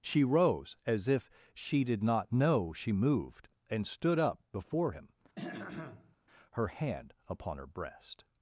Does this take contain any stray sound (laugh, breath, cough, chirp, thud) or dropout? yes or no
yes